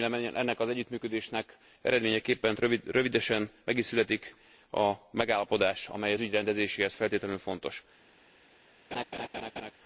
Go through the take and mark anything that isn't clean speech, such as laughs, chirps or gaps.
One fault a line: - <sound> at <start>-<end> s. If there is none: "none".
- laugh at 8.9-9.7 s